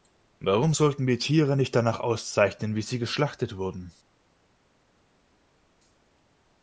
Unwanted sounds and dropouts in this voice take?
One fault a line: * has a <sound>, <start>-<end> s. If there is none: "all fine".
all fine